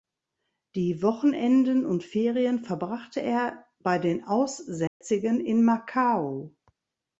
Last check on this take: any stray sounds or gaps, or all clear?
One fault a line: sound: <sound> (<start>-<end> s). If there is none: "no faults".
sound: dropout (4.9-5.0 s)